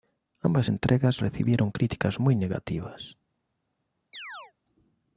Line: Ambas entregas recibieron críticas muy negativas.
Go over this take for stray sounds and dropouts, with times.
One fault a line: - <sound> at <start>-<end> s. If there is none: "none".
- chirp at 4.1-4.5 s